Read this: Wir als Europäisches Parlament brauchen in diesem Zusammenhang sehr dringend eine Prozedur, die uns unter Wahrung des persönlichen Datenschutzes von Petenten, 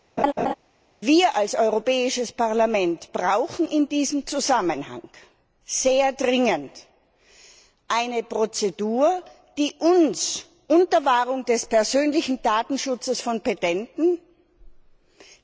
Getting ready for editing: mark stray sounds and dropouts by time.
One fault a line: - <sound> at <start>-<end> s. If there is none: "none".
- laugh at 0.2-0.5 s